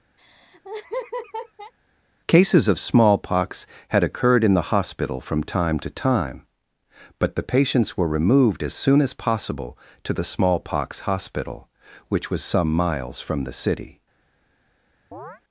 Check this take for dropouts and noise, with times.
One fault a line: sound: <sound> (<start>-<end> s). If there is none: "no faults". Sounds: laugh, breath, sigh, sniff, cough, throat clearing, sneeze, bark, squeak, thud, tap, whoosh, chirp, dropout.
sound: laugh (0.2-1.7 s)
sound: chirp (15.1-15.4 s)